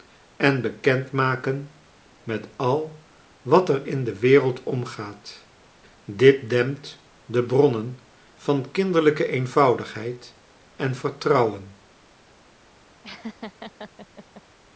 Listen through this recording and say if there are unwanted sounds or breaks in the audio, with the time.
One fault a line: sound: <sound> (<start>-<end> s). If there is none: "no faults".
sound: laugh (13.0-14.4 s)